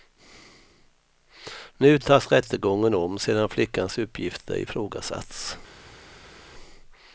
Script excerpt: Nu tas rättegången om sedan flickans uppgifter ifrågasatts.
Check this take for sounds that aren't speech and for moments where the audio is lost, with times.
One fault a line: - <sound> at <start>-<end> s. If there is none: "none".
none